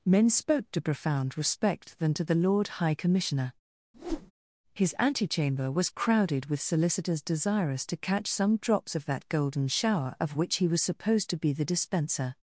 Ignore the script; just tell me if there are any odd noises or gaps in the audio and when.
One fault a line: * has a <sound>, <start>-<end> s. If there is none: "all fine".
* has a whoosh, 3.9-4.3 s